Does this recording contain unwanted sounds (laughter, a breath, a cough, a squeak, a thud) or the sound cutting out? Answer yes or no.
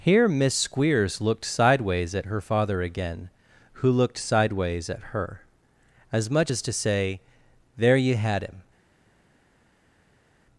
no